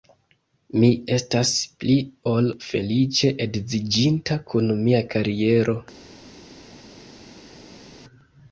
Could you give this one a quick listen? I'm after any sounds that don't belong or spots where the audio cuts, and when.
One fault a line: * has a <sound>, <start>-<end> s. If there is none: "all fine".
all fine